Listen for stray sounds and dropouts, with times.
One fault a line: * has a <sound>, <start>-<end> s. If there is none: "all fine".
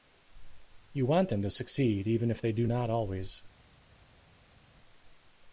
all fine